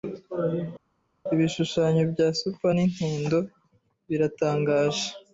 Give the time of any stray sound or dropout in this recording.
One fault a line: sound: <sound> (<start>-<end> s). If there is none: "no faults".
no faults